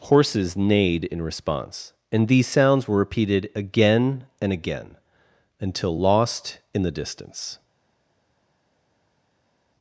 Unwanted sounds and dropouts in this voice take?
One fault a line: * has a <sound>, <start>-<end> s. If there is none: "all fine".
all fine